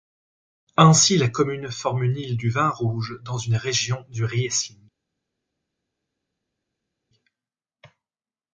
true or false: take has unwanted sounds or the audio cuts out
false